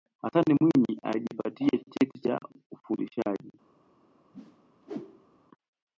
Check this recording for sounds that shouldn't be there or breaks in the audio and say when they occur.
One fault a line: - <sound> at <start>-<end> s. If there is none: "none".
- whoosh at 4.3-5.4 s